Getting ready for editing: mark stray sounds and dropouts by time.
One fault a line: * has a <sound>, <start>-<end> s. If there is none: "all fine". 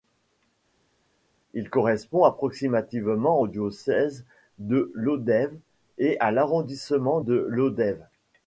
all fine